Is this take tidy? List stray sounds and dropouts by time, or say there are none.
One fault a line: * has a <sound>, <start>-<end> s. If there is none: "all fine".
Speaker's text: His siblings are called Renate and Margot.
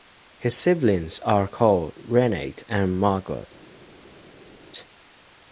all fine